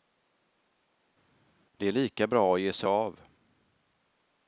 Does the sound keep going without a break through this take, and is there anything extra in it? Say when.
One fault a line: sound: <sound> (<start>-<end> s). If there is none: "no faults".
no faults